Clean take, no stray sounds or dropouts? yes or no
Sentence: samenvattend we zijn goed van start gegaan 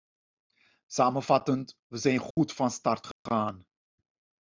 no